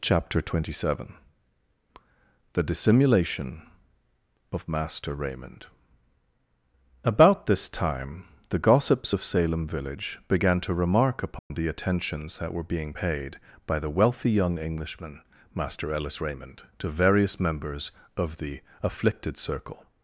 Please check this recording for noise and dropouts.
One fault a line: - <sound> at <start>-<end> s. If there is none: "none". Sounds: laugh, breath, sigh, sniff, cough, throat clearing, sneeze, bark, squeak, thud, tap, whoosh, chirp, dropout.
- dropout at 11.4-11.5 s